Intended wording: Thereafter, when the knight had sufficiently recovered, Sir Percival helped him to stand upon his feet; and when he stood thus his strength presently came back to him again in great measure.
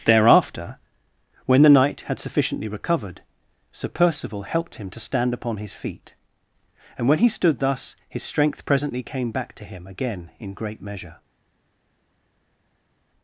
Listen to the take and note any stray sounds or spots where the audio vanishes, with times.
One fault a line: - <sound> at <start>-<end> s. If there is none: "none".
none